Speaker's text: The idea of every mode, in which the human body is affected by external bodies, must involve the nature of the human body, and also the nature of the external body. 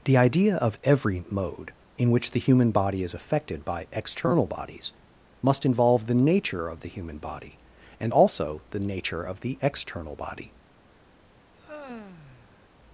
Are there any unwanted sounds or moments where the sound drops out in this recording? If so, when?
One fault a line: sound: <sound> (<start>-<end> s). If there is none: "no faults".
sound: sigh (11.5-12.7 s)